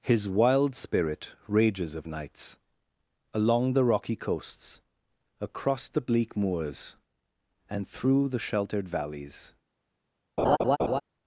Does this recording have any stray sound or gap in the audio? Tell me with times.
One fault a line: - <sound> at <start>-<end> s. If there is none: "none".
- laugh at 10.4-11.0 s